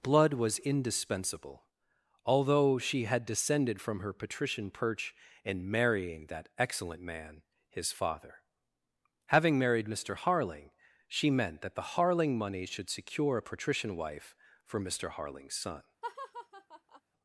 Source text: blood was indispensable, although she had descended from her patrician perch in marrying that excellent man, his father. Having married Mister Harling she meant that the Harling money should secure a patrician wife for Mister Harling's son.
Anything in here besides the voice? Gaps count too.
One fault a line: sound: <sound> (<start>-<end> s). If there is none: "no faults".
sound: laugh (16.0-17.0 s)